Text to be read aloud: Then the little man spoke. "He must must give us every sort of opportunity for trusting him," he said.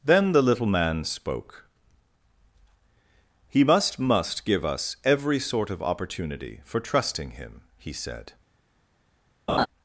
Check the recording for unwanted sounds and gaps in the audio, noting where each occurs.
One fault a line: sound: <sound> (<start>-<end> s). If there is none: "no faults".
sound: laugh (9.5-9.7 s)